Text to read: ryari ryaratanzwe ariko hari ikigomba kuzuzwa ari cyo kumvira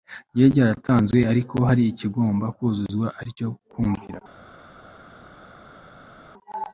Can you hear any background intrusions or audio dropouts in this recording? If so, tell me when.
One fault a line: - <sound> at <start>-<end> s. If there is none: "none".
none